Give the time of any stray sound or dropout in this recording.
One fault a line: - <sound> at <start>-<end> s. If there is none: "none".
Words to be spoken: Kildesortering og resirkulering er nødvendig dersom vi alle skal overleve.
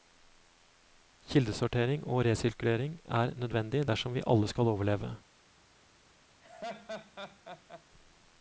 - laugh at 6.4-7.8 s